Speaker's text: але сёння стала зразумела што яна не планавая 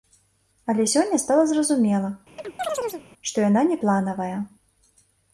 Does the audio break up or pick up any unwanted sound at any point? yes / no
yes